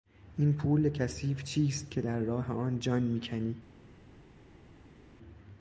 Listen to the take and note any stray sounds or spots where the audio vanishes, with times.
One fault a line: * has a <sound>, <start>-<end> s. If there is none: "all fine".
all fine